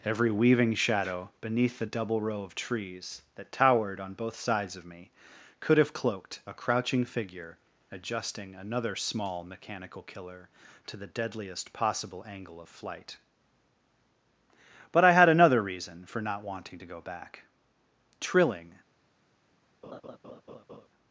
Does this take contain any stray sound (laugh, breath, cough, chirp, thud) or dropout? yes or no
yes